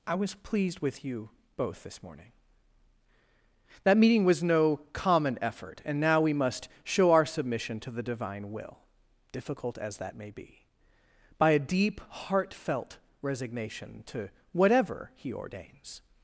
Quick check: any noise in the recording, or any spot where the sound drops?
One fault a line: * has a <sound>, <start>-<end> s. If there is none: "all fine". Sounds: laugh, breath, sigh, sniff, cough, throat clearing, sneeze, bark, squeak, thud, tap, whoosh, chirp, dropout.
all fine